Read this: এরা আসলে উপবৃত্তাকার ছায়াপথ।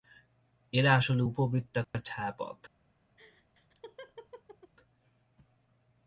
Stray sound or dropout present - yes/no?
yes